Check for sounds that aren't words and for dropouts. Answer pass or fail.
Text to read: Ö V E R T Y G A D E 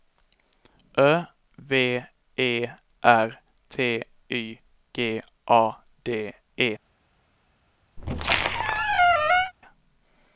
fail